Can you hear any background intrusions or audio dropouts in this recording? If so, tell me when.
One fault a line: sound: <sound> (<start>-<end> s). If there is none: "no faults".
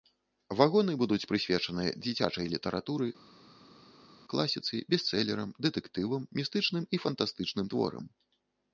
no faults